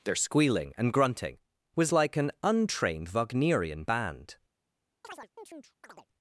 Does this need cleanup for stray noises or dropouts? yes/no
yes